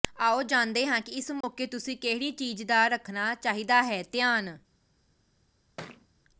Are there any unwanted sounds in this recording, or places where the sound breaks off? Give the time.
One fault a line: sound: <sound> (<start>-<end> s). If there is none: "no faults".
sound: dropout (1.4-1.4 s)
sound: thud (5.8-6.1 s)